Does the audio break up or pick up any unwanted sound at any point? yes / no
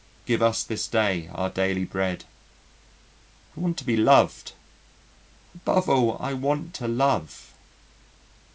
no